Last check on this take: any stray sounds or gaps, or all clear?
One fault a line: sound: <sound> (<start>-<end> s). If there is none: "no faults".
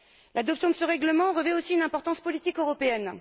no faults